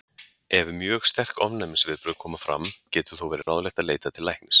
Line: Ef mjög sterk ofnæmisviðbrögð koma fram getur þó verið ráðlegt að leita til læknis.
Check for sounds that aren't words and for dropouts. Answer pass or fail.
fail